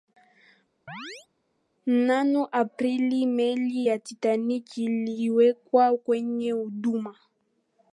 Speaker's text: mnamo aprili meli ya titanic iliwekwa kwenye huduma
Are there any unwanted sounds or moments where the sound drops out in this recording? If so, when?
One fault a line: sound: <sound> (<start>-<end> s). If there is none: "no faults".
sound: chirp (0.9-1.3 s)